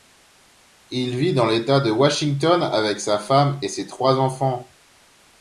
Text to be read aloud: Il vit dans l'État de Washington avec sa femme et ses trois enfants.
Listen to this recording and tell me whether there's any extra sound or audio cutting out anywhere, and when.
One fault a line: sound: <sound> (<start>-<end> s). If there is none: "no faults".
no faults